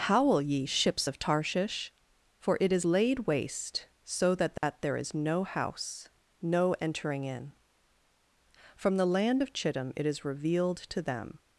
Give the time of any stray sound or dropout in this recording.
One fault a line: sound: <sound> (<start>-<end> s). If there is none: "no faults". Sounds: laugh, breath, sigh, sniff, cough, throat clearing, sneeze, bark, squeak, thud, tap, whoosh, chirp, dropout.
sound: dropout (4.6-4.6 s)